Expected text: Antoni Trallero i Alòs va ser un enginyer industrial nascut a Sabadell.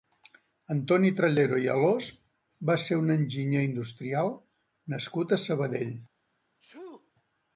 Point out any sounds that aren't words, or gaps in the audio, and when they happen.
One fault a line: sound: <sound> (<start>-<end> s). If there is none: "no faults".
sound: sneeze (6.6-7.1 s)